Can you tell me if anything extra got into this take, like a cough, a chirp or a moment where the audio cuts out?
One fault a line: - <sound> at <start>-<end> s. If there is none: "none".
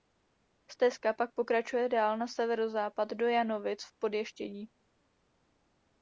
none